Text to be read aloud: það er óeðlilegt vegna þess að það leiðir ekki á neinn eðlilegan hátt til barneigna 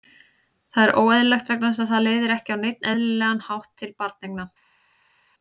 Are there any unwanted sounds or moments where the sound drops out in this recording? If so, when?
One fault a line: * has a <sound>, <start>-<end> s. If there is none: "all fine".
all fine